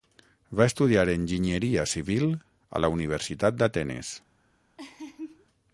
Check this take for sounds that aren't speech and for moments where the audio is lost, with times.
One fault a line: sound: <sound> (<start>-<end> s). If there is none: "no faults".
sound: laugh (4.8-5.5 s)